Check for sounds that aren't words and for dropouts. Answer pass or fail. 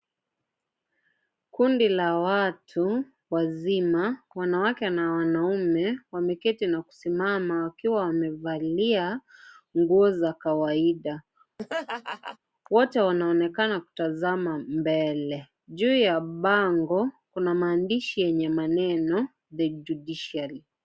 fail